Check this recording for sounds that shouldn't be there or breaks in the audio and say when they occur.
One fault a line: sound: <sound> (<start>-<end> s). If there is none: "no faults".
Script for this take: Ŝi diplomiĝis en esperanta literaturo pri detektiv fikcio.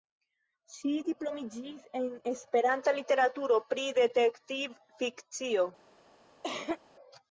sound: cough (6.4-6.8 s)